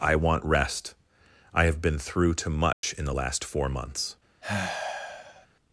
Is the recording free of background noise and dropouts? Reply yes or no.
no